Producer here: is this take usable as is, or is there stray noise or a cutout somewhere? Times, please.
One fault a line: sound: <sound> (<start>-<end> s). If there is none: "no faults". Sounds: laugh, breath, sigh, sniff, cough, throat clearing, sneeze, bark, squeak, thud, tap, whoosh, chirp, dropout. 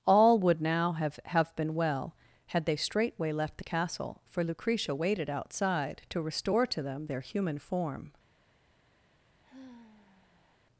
sound: sigh (9.4-10.6 s)